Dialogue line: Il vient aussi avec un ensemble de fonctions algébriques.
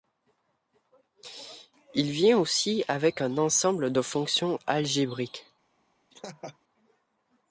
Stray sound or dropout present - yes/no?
yes